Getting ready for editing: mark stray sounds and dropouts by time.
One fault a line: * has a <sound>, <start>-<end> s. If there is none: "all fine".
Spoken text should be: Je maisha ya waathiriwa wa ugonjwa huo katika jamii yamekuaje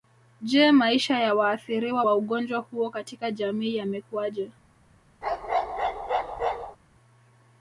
* has a bark, 5.2-6.8 s